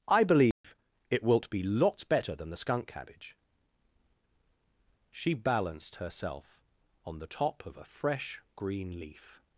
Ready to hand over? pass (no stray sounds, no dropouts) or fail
fail